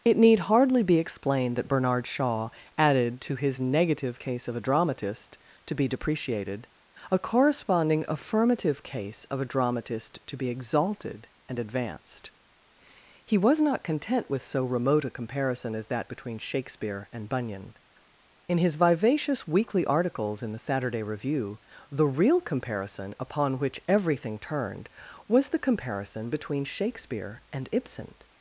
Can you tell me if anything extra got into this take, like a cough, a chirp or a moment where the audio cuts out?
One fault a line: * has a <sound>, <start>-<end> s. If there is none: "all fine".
all fine